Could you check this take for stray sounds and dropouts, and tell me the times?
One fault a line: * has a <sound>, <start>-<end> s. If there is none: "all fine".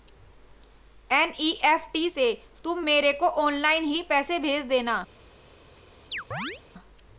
* has a chirp, 6.1-6.6 s